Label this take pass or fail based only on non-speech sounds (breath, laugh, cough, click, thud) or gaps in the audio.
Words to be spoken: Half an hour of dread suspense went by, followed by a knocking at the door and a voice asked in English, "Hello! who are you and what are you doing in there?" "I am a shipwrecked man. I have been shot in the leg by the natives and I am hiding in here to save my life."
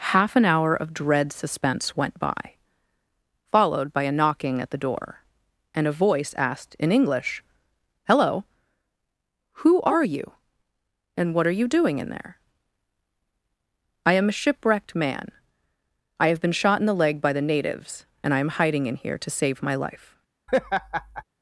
fail